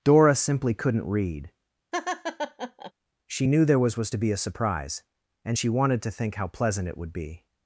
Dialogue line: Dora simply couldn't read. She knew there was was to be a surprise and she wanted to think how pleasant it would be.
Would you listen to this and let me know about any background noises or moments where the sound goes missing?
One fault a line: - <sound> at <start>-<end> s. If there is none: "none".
- laugh at 1.9-2.9 s